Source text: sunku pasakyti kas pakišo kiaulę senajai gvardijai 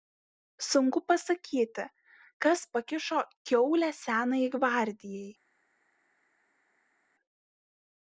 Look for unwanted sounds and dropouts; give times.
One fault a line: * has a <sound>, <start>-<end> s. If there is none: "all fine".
all fine